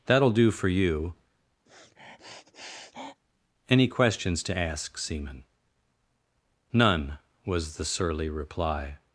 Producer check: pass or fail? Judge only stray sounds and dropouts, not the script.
fail